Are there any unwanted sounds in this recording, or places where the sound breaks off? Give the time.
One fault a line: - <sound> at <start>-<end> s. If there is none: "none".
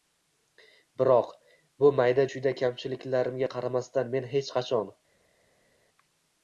none